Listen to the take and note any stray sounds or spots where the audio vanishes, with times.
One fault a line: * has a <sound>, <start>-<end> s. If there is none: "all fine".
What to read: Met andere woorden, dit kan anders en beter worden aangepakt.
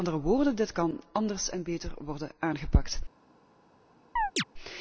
* has a chirp, 4.2-4.4 s